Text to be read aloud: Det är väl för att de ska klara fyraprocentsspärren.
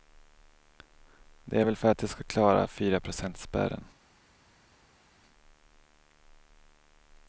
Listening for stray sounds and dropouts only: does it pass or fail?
pass